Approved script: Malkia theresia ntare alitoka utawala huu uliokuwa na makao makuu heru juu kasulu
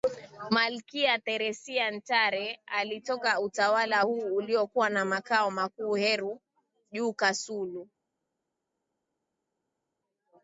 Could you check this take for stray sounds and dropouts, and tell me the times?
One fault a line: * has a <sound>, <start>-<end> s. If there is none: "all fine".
all fine